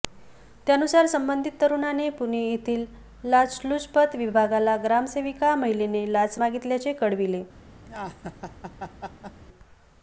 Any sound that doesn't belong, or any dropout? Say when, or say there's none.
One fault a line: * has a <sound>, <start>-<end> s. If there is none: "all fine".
* has a laugh, 7.9-9.4 s